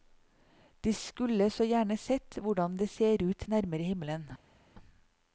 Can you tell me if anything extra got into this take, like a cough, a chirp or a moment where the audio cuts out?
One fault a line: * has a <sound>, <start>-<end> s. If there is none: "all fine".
all fine